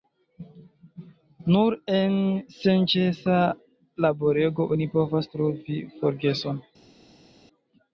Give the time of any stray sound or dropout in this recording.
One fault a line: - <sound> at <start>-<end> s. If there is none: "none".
none